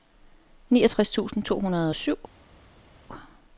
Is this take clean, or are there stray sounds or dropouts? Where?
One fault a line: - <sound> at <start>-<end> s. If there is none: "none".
none